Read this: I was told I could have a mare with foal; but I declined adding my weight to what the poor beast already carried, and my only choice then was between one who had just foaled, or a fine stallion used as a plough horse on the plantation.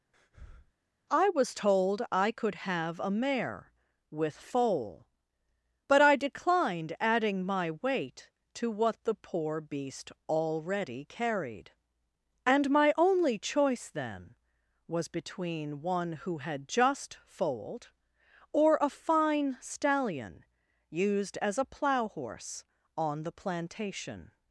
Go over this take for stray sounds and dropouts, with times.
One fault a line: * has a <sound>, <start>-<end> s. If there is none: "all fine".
* has a breath, 0.1-0.7 s